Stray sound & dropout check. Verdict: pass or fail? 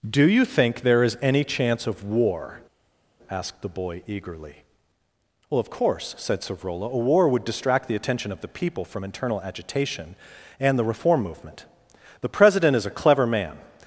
pass